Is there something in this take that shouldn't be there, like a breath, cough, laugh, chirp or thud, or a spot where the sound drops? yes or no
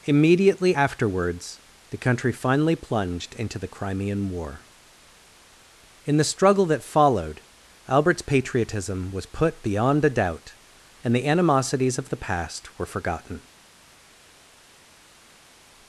no